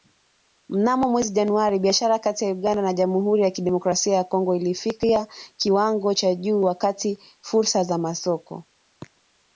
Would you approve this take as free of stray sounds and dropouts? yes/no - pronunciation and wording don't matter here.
yes